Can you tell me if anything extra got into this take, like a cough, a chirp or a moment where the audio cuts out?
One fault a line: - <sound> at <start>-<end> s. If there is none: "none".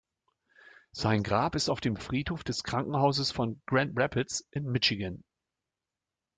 none